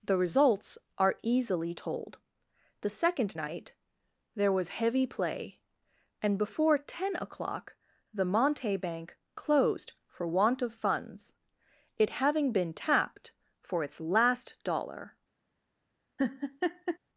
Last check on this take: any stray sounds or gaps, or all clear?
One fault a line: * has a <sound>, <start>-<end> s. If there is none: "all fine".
* has a laugh, 16.2-17.0 s